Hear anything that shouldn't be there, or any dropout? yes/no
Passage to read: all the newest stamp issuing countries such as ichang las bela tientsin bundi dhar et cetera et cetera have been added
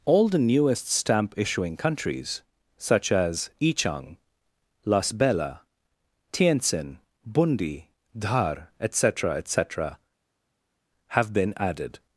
no